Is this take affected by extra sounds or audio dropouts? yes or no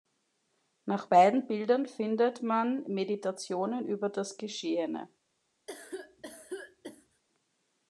yes